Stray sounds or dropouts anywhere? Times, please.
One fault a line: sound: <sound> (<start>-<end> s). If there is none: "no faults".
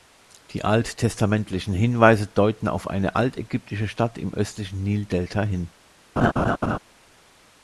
sound: laugh (6.2-6.8 s)